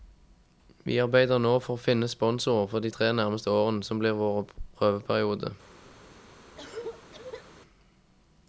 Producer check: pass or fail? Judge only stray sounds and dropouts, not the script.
fail